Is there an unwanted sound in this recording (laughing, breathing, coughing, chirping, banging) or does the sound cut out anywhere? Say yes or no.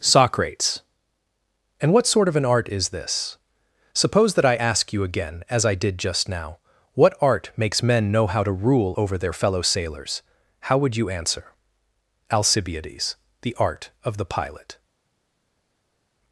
no